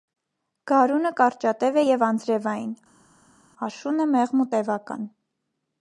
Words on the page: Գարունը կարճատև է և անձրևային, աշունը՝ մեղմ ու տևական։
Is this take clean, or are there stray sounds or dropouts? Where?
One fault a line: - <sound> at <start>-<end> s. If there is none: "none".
none